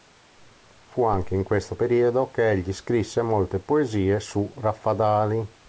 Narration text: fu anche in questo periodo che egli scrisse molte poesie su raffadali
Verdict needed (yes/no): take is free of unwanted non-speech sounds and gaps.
yes